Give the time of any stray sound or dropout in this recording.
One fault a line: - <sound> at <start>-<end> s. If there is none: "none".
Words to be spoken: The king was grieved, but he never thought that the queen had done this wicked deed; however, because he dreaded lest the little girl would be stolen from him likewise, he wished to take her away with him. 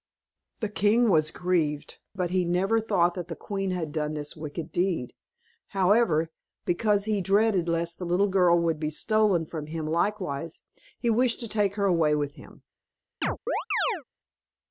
- chirp at 13.2-14.0 s